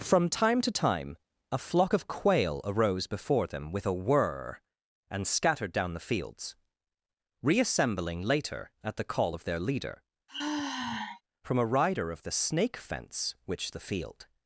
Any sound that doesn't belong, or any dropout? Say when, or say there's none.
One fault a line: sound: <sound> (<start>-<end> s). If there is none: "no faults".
sound: sigh (10.3-11.2 s)